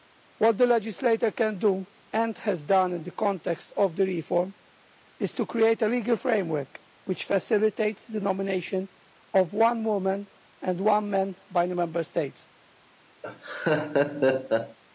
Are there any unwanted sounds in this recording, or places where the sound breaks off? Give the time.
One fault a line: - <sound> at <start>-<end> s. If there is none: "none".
- laugh at 13.2-14.8 s